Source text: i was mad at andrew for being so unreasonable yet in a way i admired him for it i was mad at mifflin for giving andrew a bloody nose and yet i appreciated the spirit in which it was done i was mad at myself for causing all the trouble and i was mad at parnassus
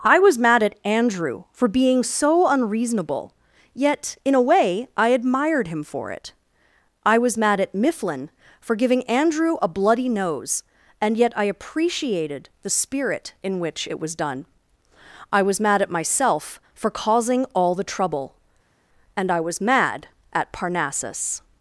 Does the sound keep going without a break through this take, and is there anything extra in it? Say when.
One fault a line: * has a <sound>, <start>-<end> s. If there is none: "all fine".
all fine